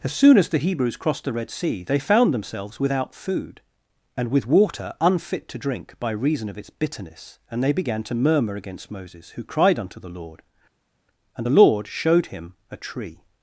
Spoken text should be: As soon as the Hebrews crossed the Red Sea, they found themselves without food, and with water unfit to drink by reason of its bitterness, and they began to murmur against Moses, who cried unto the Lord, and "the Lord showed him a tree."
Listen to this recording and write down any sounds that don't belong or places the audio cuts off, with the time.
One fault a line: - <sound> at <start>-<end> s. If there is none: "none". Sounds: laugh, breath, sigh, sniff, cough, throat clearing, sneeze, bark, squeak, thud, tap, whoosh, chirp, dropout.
none